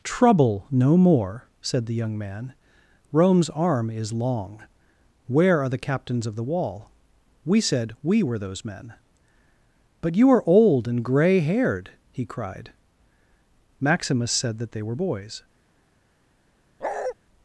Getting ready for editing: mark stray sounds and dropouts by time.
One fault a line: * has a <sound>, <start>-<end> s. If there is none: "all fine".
* has a bark, 16.8-17.1 s